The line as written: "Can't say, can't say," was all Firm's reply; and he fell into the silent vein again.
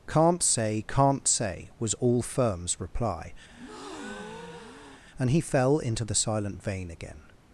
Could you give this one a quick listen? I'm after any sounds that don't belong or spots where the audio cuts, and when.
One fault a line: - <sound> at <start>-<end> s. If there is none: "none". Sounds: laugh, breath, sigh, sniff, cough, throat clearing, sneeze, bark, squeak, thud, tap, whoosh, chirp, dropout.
- breath at 3.5-5.0 s